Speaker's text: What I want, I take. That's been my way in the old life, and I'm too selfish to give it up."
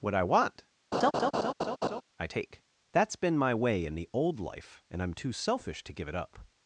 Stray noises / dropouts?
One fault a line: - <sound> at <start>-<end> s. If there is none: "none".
- laugh at 0.9-2.0 s